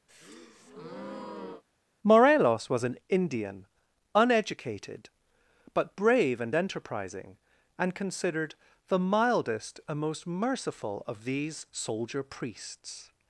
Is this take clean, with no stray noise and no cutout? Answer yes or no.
no